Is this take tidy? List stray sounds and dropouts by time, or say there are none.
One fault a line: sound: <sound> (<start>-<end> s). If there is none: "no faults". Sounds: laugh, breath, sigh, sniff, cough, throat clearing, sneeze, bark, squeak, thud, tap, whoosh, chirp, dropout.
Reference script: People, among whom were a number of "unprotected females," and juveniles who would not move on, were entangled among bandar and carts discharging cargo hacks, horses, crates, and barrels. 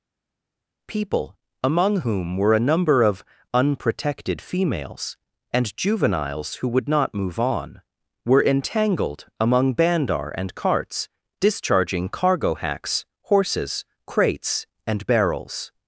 no faults